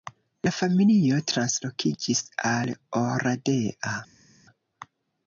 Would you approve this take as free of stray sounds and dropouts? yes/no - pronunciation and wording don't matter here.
yes